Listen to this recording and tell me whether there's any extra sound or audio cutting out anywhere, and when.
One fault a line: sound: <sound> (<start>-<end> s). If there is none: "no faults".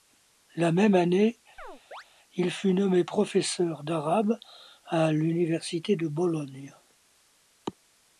sound: chirp (1.6-2.0 s)